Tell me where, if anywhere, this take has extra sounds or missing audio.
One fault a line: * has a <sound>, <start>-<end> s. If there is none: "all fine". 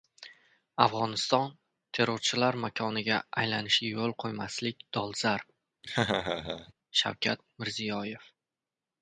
* has a laugh, 5.8-6.7 s